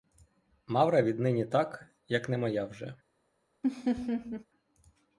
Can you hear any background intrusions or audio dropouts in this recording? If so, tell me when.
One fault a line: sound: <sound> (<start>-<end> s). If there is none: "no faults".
sound: laugh (3.6-4.5 s)